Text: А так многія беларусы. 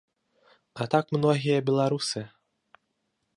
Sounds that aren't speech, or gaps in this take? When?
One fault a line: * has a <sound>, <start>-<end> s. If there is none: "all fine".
all fine